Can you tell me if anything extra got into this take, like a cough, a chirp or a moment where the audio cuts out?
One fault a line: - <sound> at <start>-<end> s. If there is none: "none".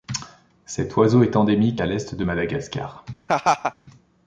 - laugh at 3.3-3.7 s